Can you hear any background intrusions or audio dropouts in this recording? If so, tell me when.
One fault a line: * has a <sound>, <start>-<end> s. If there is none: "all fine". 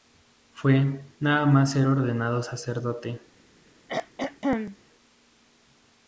* has a throat clearing, 3.9-4.8 s